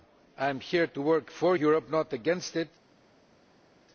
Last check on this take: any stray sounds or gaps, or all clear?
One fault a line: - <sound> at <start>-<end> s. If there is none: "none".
none